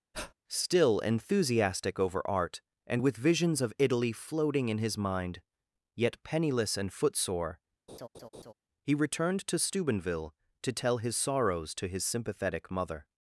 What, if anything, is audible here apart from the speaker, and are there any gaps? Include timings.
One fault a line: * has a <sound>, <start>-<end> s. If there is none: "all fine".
* has a breath, 0.1-0.3 s
* has a laugh, 7.9-8.5 s